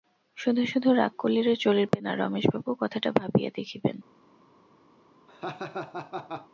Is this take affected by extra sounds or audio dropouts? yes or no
yes